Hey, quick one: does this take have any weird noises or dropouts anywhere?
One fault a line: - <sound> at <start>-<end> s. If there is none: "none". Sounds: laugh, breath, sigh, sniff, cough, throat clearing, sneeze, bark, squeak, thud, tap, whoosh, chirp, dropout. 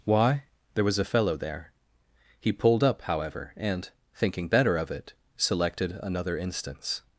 none